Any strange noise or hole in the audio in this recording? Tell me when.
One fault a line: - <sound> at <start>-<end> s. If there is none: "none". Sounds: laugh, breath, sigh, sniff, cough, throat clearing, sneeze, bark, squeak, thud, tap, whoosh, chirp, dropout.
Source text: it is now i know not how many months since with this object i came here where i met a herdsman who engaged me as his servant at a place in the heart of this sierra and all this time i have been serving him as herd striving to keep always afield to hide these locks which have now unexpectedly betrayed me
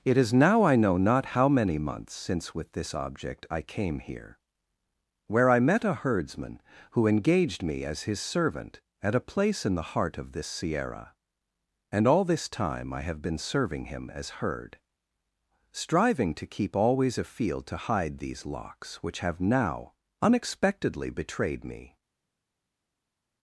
none